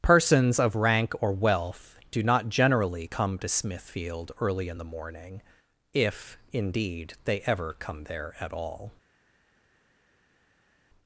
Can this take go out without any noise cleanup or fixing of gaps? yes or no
yes